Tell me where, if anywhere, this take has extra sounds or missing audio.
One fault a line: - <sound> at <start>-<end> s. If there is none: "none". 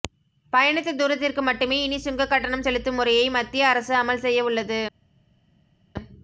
none